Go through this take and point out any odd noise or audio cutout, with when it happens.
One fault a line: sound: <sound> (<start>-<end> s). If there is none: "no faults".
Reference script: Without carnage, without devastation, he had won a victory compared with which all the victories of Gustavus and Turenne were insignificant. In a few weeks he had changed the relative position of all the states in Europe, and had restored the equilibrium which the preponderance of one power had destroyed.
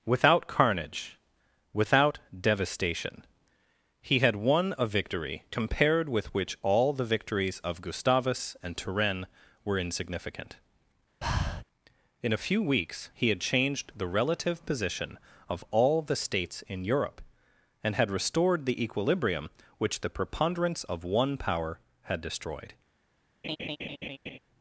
sound: breath (11.2-11.6 s)
sound: laugh (23.4-24.4 s)